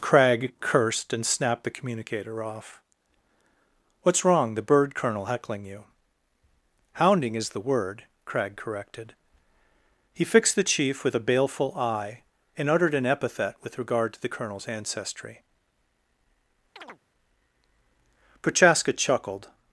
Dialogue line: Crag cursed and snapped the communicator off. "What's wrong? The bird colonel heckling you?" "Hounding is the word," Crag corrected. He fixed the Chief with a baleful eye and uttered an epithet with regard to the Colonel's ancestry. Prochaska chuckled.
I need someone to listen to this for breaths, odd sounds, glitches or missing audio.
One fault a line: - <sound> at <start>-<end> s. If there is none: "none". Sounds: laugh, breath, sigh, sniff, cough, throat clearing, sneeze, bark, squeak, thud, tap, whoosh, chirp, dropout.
- chirp at 16.8-17.0 s